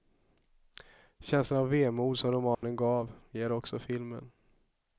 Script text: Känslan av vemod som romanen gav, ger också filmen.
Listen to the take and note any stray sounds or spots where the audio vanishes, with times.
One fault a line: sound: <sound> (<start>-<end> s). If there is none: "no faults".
sound: dropout (2.5-2.6 s)